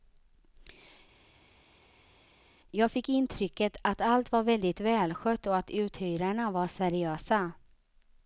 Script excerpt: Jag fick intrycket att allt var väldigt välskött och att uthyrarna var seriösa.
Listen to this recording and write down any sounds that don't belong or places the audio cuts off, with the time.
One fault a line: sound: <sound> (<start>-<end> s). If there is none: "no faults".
no faults